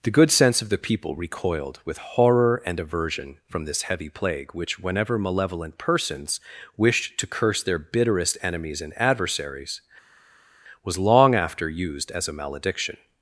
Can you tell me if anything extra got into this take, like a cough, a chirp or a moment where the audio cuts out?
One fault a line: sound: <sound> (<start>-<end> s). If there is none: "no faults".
no faults